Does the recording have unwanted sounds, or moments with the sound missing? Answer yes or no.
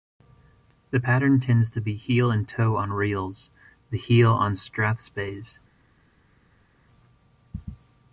no